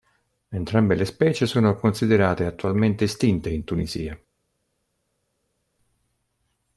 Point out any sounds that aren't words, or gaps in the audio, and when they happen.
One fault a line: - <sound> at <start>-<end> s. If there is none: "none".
none